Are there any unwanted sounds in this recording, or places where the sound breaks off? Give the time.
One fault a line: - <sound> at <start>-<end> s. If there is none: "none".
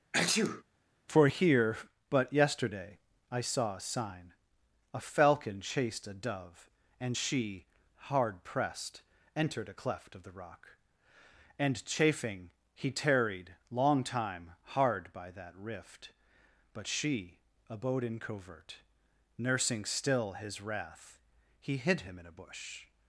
- sneeze at 0.1-0.6 s